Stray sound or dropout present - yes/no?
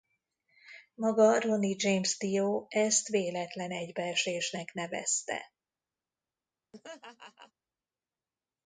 yes